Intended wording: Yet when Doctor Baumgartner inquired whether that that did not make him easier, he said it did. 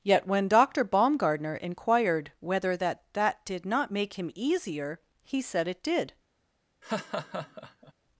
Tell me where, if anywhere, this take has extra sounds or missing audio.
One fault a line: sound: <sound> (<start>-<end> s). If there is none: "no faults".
sound: laugh (6.8-7.9 s)